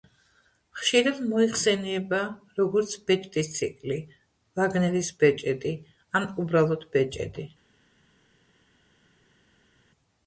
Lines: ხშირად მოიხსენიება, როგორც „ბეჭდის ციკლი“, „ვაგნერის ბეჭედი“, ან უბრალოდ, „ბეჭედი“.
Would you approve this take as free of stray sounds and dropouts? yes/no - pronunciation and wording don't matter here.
yes